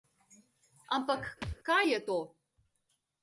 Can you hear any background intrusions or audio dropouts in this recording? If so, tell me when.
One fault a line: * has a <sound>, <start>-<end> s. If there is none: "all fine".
* has a thud, 1.4-1.6 s